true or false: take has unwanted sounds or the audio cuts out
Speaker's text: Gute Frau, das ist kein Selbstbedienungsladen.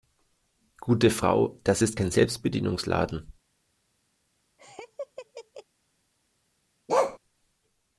true